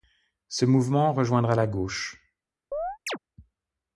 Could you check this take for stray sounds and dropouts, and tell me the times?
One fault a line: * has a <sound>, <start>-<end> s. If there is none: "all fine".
* has a chirp, 2.7-3.2 s